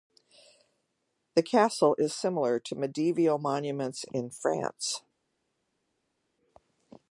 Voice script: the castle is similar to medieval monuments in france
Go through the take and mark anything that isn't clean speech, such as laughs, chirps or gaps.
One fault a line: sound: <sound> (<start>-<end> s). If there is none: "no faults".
no faults